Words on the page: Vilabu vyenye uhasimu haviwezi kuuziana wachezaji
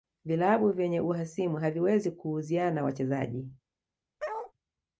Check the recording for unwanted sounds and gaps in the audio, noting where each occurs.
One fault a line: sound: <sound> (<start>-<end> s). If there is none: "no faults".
sound: bark (4.2-4.5 s)